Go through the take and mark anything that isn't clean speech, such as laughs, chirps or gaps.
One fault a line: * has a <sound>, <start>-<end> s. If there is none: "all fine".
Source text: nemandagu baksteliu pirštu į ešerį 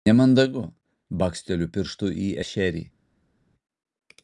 all fine